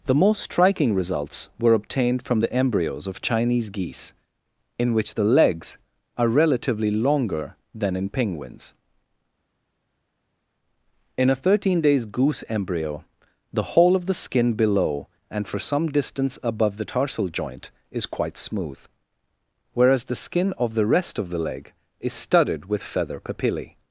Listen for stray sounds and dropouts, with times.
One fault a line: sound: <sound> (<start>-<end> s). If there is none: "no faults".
no faults